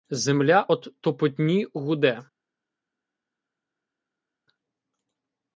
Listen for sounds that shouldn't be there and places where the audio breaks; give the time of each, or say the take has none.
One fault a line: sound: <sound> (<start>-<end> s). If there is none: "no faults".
no faults